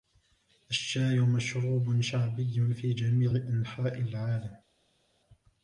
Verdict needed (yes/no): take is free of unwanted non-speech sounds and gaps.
yes